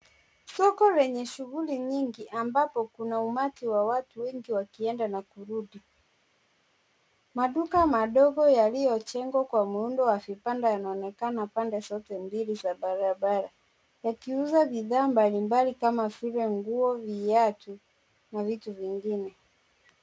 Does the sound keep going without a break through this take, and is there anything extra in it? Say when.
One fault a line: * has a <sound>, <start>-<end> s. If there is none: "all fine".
all fine